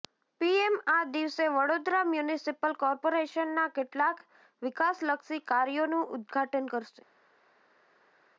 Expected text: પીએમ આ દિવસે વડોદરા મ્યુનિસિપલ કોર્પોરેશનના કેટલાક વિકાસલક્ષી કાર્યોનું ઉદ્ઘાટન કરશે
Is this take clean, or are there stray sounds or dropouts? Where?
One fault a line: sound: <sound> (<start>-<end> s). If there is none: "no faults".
no faults